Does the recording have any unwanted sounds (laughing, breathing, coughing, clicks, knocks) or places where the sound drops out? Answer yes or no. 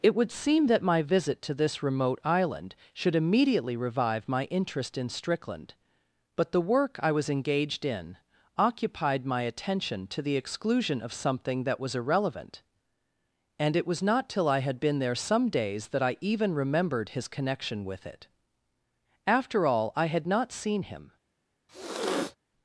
yes